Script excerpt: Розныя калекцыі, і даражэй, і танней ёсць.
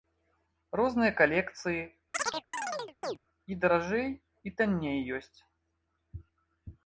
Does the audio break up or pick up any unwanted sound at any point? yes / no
yes